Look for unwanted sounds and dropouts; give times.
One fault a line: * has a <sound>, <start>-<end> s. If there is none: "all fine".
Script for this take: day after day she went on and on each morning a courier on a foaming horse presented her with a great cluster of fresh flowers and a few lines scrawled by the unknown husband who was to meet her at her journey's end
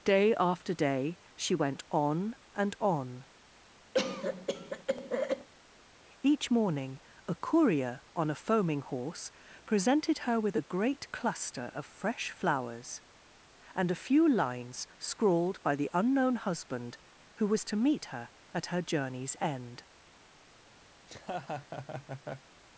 * has a cough, 3.9-5.5 s
* has a laugh, 21.0-22.5 s